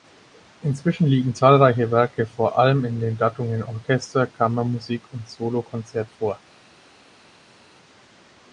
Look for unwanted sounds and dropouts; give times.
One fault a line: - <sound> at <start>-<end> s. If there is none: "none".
none